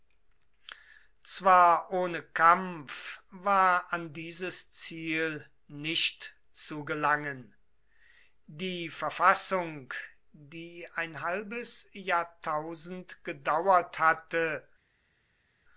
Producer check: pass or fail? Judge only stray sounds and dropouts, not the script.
pass